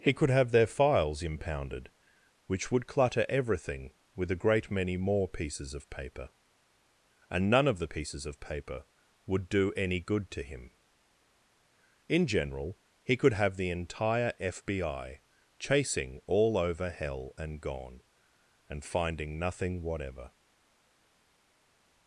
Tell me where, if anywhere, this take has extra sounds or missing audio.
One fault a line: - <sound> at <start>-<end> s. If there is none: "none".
none